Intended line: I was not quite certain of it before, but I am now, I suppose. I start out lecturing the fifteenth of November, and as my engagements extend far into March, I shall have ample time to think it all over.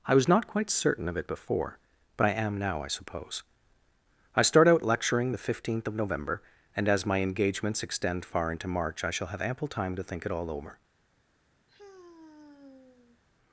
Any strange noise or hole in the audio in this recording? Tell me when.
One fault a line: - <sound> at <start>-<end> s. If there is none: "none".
- sigh at 11.7-13.2 s